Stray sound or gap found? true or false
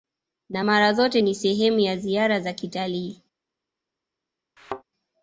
true